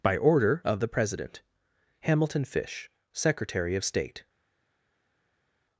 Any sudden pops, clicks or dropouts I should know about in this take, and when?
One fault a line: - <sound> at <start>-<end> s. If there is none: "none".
none